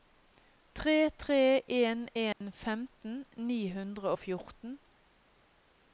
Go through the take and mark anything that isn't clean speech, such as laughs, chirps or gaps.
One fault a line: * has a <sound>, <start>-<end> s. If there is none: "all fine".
* has a dropout, 2.3-2.4 s